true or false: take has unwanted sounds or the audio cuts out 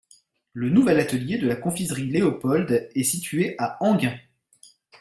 false